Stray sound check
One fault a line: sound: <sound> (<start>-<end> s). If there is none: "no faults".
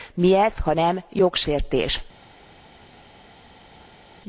no faults